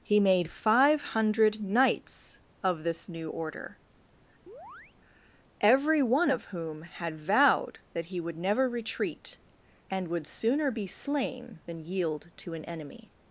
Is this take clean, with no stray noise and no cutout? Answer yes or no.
no